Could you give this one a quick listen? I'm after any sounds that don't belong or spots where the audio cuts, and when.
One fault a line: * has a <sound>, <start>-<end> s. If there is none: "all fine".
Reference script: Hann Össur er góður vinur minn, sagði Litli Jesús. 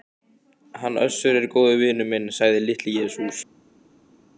all fine